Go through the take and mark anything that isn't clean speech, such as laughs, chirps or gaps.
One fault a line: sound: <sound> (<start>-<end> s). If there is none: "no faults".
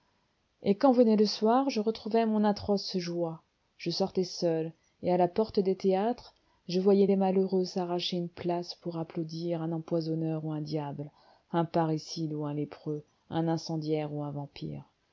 no faults